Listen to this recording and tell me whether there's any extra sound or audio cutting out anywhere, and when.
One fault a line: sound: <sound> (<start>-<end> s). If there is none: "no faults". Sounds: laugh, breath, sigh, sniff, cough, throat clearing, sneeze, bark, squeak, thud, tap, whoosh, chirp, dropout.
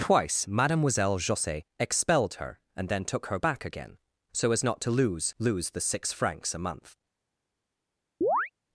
sound: chirp (8.2-8.5 s)